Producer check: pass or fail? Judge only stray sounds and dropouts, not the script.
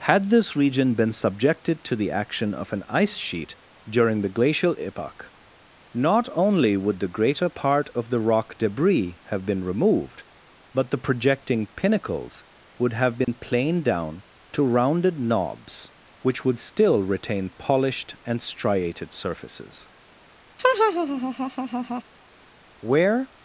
fail